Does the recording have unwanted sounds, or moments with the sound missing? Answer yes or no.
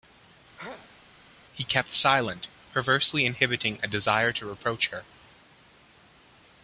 yes